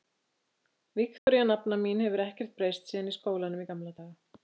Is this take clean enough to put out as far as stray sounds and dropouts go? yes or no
no